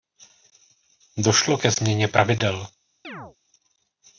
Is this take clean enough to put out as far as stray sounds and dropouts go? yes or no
no